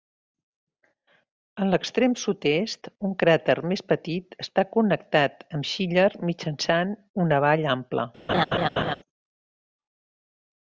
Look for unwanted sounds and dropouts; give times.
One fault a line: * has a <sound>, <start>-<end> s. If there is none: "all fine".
* has a laugh, 8.3-9.0 s